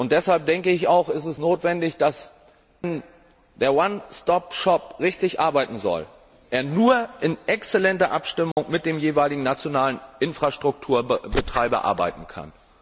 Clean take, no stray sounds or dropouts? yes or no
no